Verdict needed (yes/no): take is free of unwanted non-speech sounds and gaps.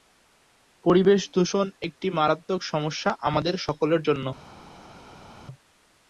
yes